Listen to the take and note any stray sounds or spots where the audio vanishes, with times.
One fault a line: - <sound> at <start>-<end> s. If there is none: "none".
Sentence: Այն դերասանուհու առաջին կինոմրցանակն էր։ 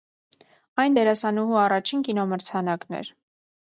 none